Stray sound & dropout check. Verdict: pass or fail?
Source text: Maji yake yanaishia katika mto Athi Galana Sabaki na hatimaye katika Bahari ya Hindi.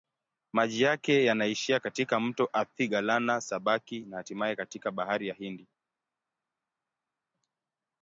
pass